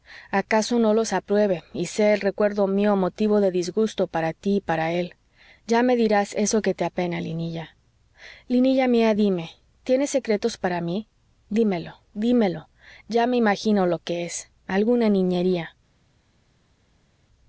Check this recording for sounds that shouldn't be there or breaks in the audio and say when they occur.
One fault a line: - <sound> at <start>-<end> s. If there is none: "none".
none